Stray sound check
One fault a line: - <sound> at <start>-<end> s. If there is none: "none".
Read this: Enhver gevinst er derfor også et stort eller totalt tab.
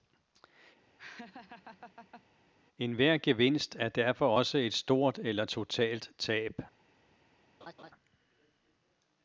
- laugh at 1.0-2.2 s
- laugh at 7.6-7.9 s